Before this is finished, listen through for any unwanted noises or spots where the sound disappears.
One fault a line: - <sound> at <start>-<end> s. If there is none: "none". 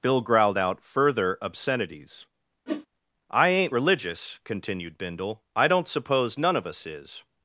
- whoosh at 2.7-2.9 s